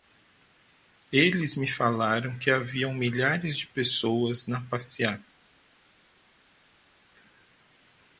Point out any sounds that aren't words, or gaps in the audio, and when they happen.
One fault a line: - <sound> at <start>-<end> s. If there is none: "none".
none